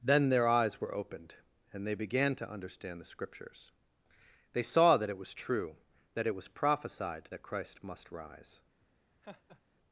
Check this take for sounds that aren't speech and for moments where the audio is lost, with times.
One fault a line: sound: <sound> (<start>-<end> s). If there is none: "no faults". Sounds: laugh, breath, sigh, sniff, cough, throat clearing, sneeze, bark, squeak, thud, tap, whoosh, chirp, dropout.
sound: laugh (9.2-9.6 s)